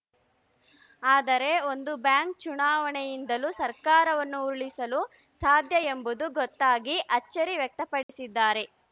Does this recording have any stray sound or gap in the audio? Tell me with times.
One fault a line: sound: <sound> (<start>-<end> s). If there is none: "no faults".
sound: dropout (8.0-8.1 s)